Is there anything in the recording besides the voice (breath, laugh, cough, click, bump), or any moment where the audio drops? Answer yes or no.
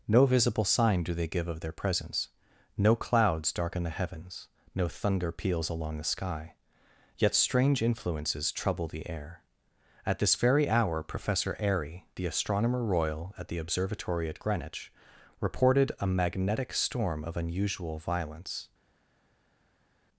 no